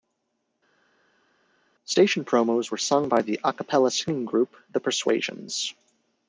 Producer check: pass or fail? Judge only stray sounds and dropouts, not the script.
pass